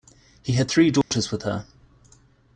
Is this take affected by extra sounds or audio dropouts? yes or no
yes